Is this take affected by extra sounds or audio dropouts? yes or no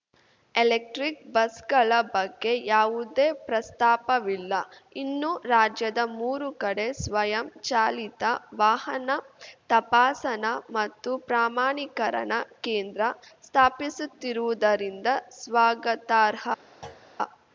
yes